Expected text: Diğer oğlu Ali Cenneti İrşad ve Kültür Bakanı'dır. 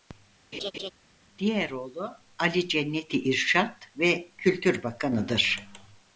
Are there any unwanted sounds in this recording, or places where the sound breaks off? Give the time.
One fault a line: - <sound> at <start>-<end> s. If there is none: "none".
- laugh at 0.5-0.9 s